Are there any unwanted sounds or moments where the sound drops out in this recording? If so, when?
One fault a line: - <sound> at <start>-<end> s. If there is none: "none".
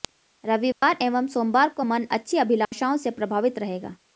- dropout at 0.7-0.8 s
- dropout at 2.6-2.7 s